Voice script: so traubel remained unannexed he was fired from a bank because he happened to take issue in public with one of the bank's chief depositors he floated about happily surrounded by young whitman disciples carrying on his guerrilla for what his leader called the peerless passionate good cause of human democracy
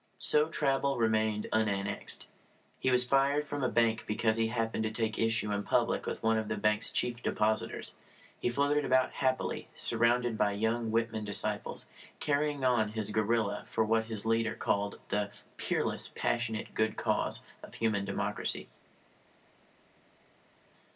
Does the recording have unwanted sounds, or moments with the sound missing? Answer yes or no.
no